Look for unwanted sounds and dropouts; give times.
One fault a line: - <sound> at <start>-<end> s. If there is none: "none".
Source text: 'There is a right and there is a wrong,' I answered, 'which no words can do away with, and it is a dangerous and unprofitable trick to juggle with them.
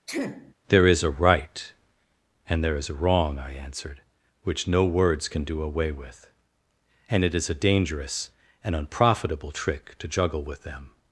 - sniff at 0.1-0.5 s